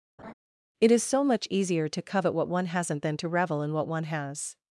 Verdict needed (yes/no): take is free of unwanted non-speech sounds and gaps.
no